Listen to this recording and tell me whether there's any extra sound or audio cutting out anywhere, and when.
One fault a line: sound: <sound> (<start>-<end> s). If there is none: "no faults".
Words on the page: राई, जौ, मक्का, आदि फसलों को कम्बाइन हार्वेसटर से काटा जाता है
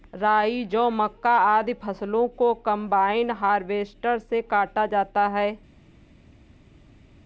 no faults